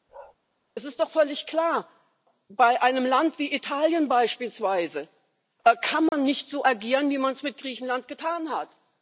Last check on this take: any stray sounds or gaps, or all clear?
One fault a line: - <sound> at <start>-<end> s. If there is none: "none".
- bark at 0.1-0.4 s
- dropout at 6.1-6.1 s